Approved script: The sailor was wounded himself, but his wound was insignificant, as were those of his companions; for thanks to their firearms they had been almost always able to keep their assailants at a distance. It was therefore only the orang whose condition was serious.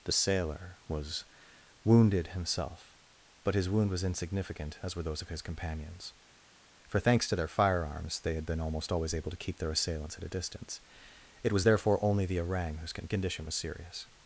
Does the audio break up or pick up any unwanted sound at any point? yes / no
no